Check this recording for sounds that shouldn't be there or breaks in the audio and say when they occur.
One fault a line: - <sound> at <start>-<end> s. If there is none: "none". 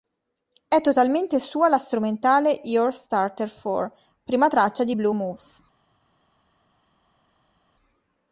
none